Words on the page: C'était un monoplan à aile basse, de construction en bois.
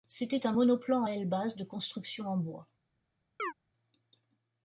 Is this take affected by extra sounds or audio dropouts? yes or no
yes